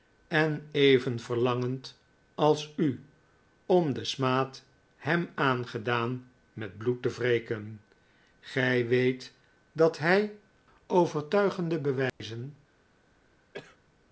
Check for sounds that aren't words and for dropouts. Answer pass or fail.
fail